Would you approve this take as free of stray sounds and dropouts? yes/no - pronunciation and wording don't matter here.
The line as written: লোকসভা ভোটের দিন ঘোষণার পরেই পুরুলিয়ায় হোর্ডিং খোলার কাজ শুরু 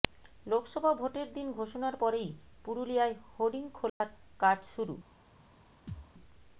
no